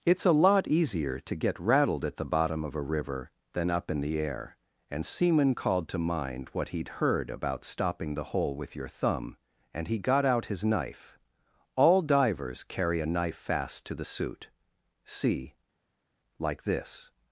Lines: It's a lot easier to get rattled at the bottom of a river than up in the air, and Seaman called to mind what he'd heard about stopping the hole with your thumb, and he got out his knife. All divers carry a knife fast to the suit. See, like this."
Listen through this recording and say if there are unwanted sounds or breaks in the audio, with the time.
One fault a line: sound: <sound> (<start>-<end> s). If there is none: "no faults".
no faults